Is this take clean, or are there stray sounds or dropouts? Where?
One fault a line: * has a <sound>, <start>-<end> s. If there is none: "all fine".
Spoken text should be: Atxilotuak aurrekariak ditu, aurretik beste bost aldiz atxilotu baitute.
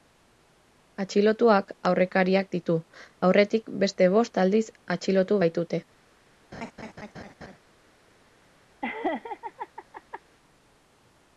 * has a laugh, 6.5-7.6 s
* has a laugh, 8.8-10.2 s